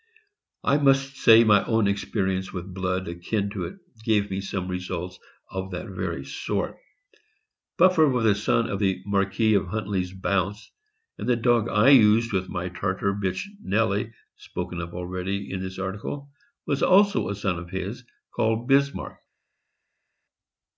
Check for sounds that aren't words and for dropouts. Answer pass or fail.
pass